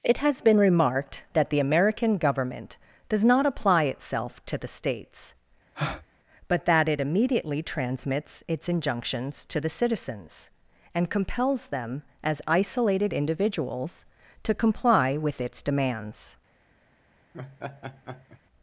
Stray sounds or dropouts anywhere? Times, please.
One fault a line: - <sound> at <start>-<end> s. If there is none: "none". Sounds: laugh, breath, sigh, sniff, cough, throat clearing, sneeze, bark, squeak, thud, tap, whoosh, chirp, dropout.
- breath at 5.7-6.1 s
- laugh at 17.3-18.4 s